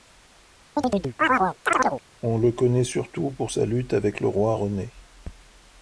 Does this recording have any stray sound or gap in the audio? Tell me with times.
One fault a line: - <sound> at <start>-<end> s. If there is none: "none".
- chirp at 0.8-2.0 s